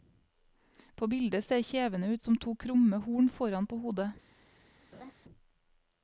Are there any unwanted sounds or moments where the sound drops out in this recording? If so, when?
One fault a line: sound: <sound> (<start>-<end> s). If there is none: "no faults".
sound: laugh (4.9-5.1 s)